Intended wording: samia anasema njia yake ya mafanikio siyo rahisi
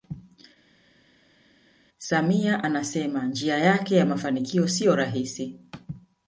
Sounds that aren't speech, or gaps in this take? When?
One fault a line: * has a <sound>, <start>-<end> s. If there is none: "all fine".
all fine